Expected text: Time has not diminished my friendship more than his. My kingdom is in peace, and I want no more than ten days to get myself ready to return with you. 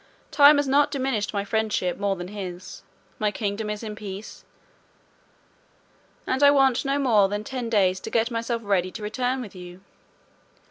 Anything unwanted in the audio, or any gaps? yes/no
no